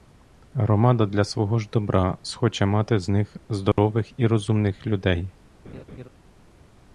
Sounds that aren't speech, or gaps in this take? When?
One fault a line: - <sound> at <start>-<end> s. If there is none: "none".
- dropout at 3.7-3.8 s
- laugh at 5.6-6.1 s